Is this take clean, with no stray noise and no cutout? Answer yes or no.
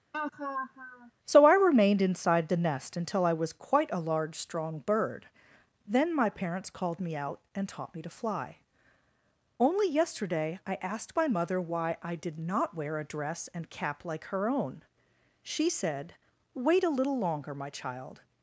no